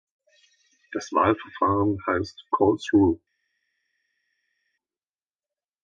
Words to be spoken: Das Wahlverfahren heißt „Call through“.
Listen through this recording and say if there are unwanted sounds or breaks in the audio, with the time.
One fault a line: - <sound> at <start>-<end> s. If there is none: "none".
none